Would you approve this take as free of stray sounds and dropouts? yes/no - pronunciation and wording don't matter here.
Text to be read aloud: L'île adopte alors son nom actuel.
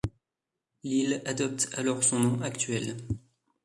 yes